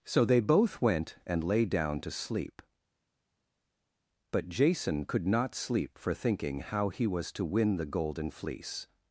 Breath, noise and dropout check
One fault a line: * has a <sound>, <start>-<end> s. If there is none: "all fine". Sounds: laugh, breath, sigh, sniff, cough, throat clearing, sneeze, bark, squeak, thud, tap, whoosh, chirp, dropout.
all fine